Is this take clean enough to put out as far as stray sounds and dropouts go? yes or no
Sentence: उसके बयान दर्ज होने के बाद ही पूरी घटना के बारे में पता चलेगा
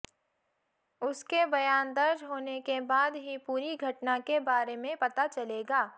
yes